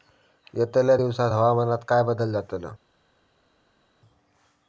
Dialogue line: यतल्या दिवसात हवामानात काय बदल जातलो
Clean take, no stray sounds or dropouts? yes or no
yes